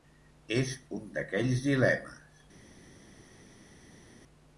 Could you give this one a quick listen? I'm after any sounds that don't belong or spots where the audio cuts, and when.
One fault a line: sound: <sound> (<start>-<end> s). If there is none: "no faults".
no faults